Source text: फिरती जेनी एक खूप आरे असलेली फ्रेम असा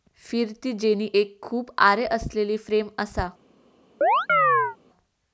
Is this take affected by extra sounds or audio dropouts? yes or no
yes